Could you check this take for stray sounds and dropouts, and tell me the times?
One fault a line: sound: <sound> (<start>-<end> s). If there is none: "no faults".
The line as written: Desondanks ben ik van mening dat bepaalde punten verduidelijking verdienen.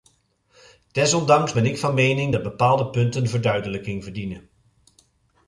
no faults